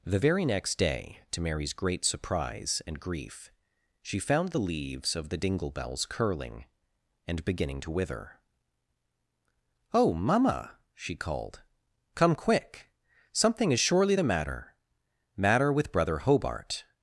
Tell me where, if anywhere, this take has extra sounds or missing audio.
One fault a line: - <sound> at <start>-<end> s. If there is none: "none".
none